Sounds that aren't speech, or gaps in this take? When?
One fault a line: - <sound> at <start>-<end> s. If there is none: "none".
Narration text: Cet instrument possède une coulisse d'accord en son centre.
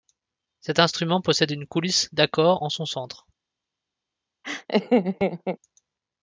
- laugh at 4.4-5.6 s